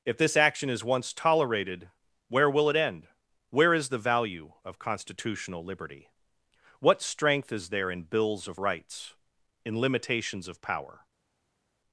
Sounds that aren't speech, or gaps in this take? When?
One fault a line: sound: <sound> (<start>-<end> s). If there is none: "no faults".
no faults